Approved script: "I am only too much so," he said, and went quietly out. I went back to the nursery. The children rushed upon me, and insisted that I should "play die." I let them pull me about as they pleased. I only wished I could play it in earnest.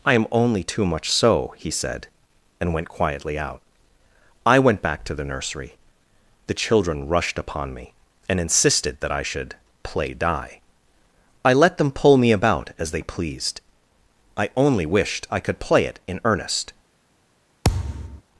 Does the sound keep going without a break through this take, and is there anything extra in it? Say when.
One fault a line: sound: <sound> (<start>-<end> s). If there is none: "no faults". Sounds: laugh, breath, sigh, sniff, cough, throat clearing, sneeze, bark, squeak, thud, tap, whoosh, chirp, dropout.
sound: thud (17.6-18.2 s)